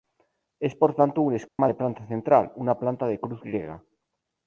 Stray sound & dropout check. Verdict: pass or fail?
fail